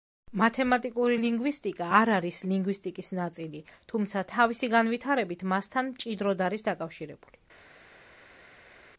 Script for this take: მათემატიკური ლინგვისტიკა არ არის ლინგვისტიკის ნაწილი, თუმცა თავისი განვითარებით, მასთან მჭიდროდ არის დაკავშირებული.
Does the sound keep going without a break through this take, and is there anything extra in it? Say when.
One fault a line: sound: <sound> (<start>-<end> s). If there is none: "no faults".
no faults